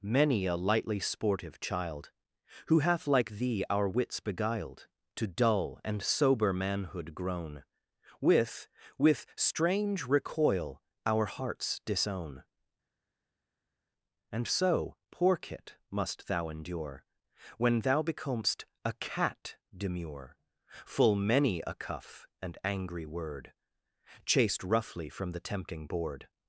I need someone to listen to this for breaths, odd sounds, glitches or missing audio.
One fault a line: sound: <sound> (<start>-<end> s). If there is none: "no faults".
no faults